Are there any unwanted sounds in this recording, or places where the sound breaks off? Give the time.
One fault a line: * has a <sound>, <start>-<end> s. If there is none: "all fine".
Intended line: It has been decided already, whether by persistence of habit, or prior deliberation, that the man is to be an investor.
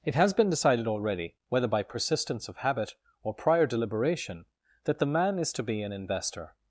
all fine